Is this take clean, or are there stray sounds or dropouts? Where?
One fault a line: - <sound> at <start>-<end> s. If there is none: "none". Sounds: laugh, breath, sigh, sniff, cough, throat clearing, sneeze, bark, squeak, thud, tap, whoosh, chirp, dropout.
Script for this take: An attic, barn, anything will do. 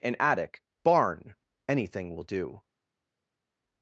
none